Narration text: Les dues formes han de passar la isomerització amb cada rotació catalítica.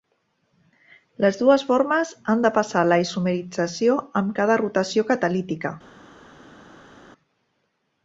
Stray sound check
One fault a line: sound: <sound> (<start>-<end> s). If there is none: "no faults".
no faults